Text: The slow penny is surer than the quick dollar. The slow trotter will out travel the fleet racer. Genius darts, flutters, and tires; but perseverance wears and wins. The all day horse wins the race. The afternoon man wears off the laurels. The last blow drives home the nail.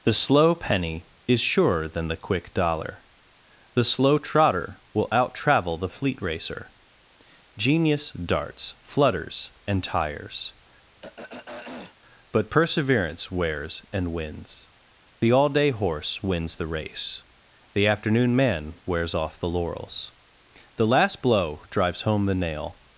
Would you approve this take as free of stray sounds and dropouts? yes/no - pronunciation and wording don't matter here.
no